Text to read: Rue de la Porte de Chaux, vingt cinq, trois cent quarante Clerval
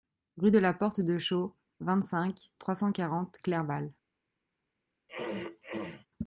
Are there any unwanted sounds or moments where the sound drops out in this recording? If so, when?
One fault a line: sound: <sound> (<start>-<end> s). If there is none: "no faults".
sound: throat clearing (5.1-6.1 s)